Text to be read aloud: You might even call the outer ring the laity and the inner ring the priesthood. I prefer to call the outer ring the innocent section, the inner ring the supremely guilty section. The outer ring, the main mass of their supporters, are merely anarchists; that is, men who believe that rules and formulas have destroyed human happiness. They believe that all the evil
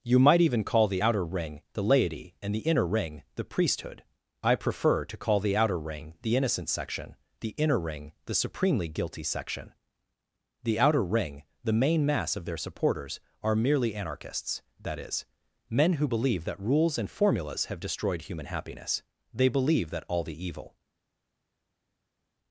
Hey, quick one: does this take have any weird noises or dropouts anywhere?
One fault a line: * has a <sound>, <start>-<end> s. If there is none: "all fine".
all fine